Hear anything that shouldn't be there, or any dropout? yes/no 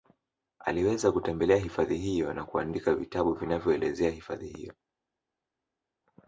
no